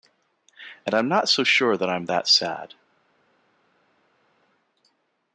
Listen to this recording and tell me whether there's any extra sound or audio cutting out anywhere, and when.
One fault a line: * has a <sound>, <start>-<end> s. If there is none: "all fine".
all fine